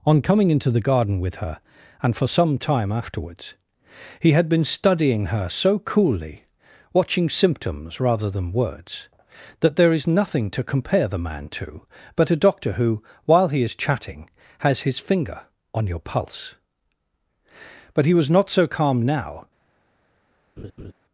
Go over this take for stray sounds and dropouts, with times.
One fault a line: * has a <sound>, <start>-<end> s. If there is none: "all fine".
* has a laugh, 20.6-20.9 s